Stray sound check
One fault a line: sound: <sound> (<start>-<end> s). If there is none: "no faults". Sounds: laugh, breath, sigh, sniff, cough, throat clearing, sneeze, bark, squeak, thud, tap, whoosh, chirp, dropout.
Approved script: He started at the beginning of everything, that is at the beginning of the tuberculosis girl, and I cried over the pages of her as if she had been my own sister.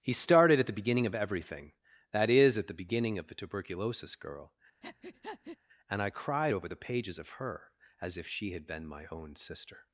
sound: breath (4.8-5.6 s)